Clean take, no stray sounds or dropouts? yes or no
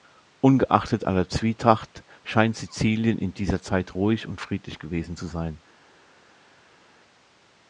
yes